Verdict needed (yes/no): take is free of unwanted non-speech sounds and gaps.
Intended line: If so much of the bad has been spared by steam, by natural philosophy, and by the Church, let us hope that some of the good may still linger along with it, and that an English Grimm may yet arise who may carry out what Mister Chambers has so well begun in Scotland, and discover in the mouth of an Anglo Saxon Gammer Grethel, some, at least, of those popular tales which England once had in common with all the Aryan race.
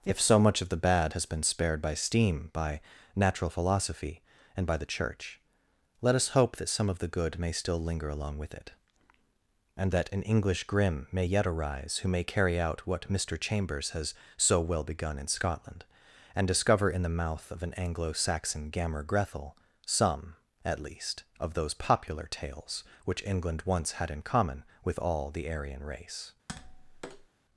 no